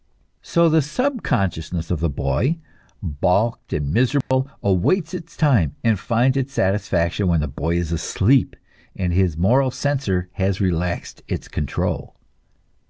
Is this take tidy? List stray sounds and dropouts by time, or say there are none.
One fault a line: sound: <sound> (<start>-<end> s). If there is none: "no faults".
sound: dropout (4.2-4.3 s)